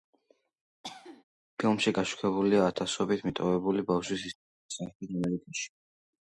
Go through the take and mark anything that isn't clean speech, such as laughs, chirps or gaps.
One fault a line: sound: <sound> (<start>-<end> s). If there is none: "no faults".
sound: cough (0.8-1.2 s)